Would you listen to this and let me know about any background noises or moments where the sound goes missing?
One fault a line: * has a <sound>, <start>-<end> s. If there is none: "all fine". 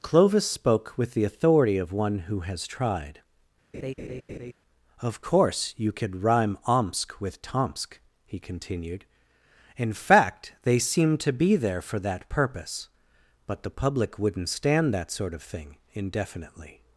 * has a laugh, 3.7-4.5 s